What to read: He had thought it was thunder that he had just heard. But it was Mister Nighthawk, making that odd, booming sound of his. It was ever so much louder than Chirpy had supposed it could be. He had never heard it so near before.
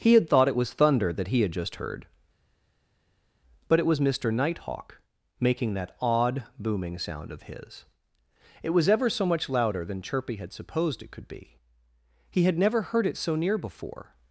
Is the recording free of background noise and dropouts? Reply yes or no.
yes